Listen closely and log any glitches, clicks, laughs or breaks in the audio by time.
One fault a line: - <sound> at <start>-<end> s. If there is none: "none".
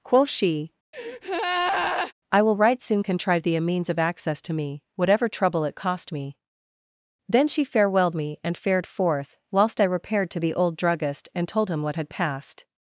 - breath at 0.9-2.1 s